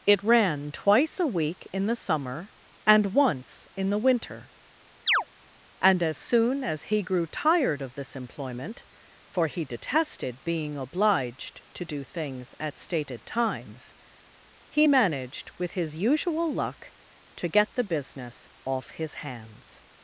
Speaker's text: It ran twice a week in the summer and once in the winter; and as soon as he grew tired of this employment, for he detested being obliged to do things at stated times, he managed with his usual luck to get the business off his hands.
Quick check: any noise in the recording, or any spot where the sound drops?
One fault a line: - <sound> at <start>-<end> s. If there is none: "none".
- chirp at 5.1-5.2 s